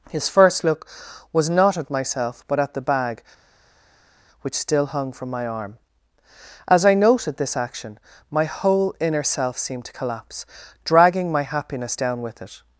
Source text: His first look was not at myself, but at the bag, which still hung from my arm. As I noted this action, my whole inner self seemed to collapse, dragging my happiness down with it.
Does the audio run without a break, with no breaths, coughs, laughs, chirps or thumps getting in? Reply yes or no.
yes